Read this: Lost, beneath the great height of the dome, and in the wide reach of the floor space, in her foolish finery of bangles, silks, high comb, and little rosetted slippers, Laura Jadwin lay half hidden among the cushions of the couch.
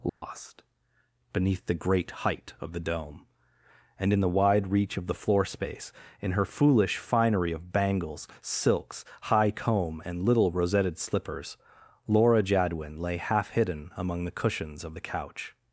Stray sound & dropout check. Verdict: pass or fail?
fail